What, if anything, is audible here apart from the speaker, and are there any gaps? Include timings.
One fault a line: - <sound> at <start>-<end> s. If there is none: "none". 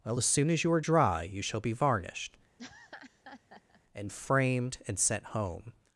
- laugh at 2.6-3.8 s